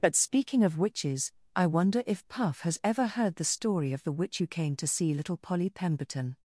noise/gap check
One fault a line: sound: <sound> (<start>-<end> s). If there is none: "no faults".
no faults